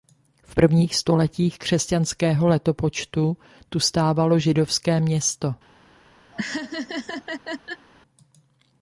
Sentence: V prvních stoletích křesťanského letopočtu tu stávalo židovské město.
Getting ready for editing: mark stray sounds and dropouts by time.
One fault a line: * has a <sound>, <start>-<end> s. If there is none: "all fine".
* has a laugh, 6.3-7.9 s